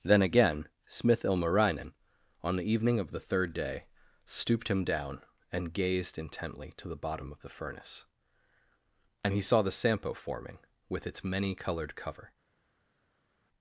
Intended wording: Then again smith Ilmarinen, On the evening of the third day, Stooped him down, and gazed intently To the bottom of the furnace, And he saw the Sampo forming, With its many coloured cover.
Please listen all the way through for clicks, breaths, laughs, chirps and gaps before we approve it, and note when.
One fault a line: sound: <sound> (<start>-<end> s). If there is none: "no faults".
no faults